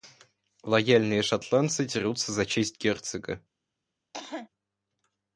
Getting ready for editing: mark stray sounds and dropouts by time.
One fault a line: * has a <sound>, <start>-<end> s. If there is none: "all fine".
* has a cough, 4.1-4.5 s